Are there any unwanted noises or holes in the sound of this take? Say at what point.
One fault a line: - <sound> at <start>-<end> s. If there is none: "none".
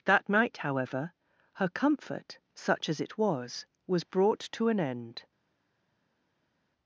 none